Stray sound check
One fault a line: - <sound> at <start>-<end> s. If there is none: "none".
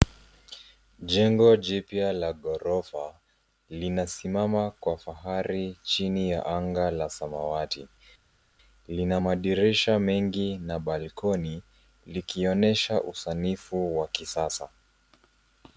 none